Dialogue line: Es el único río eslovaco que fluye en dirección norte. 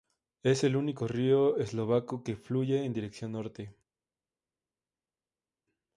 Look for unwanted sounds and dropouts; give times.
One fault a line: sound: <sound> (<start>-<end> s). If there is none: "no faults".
no faults